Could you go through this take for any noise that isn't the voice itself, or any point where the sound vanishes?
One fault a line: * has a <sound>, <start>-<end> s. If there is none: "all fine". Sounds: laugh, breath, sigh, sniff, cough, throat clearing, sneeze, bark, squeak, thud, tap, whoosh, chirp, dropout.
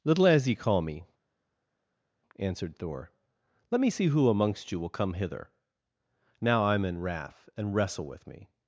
all fine